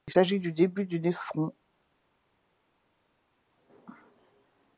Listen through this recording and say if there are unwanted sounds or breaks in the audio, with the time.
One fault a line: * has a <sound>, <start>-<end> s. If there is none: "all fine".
all fine